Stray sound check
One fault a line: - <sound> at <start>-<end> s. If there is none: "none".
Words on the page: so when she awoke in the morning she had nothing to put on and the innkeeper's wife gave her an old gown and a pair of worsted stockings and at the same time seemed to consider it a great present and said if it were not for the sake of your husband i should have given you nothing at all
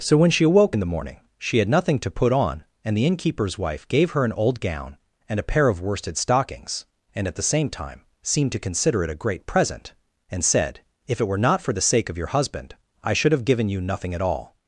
none